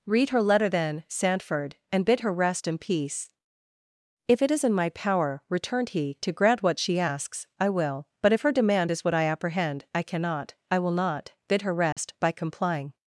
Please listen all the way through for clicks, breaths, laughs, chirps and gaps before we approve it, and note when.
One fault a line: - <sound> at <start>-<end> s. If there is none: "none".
- dropout at 11.9-12.0 s